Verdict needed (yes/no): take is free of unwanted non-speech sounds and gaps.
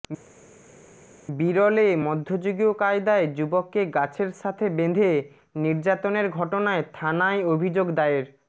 yes